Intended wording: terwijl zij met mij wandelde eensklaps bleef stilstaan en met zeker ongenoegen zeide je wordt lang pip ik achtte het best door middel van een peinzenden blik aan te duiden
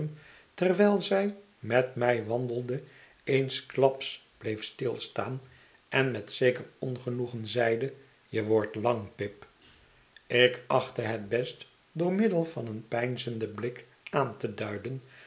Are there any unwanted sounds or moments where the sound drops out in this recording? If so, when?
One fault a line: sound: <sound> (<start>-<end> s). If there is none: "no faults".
no faults